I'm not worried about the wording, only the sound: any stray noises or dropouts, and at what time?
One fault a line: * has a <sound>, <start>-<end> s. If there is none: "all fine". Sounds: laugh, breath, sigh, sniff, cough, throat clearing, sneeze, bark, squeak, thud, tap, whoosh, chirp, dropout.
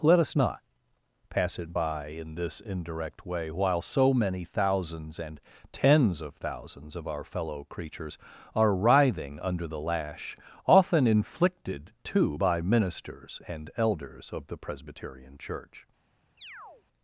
* has a chirp, 16.4-16.8 s